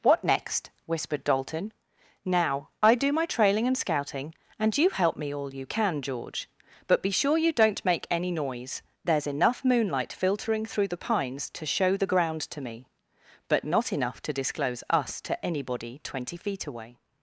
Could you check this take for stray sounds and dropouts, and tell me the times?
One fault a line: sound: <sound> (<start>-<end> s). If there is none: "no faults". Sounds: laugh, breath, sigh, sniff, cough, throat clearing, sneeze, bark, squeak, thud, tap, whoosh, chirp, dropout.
no faults